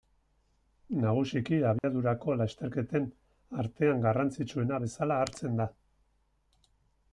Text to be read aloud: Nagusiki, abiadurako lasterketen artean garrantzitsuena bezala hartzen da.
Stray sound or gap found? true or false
true